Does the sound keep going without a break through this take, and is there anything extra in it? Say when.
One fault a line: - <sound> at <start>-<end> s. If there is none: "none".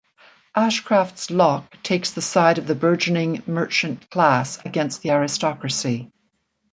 none